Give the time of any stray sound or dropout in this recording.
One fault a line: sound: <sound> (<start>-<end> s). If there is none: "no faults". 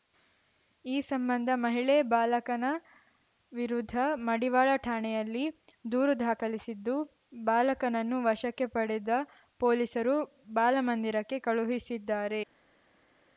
no faults